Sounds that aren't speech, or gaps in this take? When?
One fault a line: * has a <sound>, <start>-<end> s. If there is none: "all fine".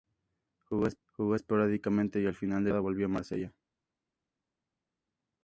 all fine